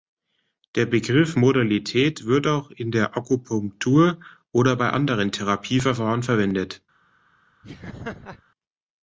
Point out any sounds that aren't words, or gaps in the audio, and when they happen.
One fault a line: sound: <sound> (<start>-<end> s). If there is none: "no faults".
sound: laugh (7.6-8.4 s)